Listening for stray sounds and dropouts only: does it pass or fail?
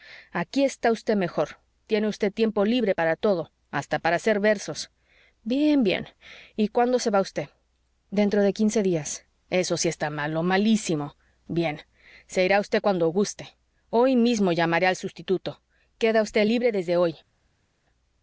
pass